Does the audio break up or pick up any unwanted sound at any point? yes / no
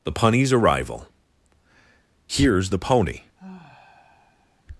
yes